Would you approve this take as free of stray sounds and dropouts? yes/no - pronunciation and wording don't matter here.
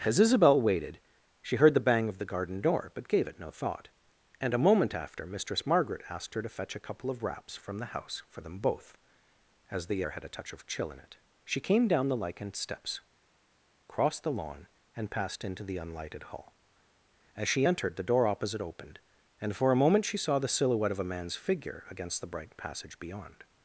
yes